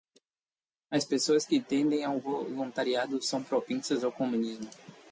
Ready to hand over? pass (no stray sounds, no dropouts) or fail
pass